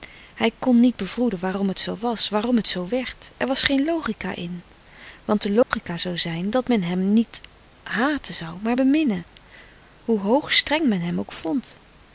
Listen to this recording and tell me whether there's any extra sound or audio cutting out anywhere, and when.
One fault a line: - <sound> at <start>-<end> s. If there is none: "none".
- dropout at 5.6-5.7 s